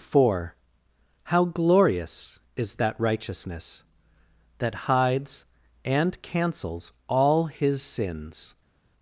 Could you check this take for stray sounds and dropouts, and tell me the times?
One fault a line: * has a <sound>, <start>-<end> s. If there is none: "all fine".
all fine